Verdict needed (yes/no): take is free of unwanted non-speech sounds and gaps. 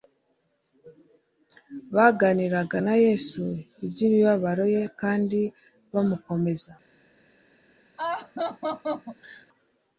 no